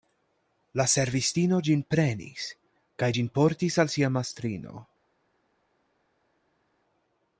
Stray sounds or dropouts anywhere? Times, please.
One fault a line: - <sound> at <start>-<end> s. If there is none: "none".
none